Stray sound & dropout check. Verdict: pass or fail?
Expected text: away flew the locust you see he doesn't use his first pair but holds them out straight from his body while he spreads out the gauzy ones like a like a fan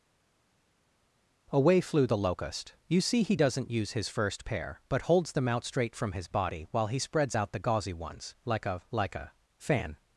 pass